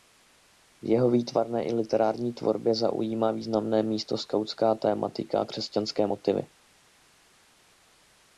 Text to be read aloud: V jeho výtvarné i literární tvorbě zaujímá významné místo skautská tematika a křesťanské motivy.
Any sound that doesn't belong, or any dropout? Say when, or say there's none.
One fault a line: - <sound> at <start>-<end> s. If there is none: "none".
none